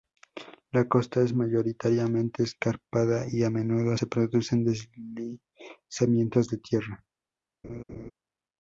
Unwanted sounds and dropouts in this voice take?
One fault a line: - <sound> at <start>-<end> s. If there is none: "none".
- laugh at 7.6-8.1 s